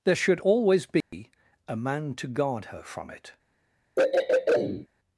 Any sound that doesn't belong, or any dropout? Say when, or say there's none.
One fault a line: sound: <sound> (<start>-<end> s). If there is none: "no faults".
sound: dropout (1.0-1.1 s)
sound: throat clearing (4.0-4.9 s)